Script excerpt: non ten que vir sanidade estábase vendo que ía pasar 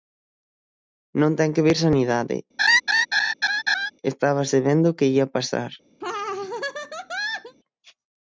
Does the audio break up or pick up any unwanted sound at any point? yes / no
yes